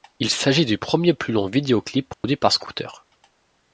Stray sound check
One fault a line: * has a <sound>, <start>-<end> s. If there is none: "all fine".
* has a dropout, 2.1-2.2 s